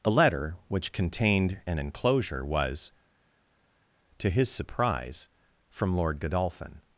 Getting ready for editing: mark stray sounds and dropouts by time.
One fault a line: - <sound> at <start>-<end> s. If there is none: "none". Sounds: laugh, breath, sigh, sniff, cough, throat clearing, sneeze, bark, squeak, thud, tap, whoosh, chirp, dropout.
none